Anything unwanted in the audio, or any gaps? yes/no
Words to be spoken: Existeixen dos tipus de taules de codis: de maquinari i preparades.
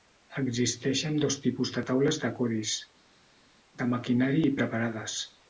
no